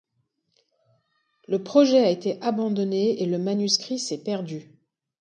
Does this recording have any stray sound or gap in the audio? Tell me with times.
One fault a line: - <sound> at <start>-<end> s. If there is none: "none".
none